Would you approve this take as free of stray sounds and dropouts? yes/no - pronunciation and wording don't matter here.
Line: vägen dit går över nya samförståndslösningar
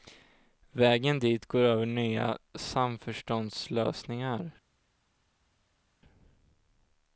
yes